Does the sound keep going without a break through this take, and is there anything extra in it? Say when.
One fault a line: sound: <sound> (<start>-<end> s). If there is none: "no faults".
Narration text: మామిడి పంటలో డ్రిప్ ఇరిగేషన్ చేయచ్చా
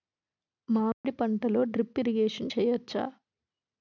sound: dropout (0.9-1.0 s)